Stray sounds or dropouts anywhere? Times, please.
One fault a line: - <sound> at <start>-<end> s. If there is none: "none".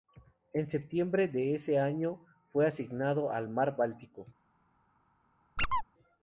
- squeak at 5.6-5.8 s